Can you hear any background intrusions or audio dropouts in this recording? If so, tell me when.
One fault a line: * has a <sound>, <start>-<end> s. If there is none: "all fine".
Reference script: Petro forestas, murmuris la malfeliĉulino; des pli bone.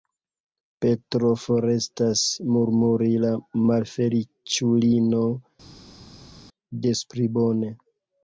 all fine